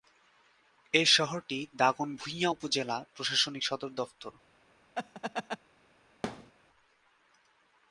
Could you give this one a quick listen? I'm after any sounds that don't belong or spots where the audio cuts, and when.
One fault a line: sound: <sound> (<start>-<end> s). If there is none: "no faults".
sound: laugh (4.9-5.6 s)
sound: thud (6.2-6.5 s)